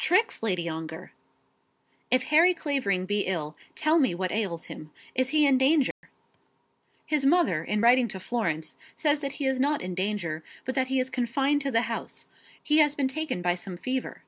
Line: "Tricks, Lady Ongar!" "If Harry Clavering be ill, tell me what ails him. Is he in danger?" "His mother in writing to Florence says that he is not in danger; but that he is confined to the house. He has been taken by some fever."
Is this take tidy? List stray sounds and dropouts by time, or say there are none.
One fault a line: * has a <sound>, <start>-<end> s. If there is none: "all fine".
* has a dropout, 5.9-6.0 s